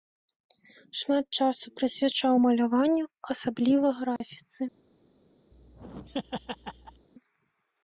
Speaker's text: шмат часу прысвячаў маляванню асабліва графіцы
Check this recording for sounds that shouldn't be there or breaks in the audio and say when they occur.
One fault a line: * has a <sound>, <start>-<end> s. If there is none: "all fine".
* has a dropout, 4.2-4.2 s
* has a laugh, 5.5-7.1 s